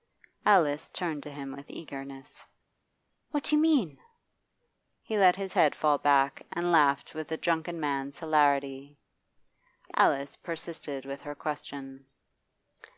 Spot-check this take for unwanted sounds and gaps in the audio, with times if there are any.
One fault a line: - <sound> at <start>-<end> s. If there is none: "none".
none